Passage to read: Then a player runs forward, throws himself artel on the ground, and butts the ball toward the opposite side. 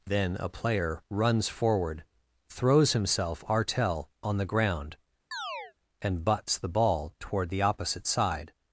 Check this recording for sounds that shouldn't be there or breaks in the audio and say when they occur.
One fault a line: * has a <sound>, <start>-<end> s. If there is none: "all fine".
* has a chirp, 5.3-5.7 s